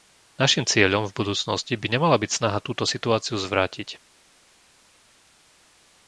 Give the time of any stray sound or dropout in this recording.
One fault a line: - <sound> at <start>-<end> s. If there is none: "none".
none